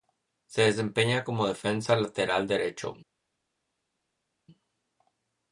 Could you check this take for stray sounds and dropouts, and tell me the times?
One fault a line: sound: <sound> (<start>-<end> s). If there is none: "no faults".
no faults